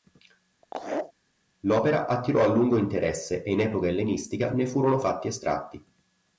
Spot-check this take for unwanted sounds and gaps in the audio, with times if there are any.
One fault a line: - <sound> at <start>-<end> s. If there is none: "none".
- laugh at 0.6-1.1 s